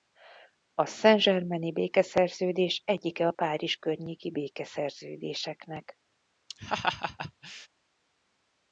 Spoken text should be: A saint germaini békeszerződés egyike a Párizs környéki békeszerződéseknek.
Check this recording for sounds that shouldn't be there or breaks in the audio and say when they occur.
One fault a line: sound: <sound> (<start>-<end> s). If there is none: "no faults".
sound: laugh (6.5-7.7 s)